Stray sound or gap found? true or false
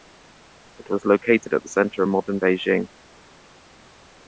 false